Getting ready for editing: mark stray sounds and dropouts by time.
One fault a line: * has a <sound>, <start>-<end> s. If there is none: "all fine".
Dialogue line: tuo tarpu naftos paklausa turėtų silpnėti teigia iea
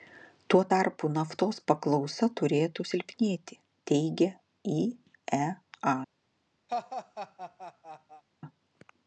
* has a laugh, 6.7-8.2 s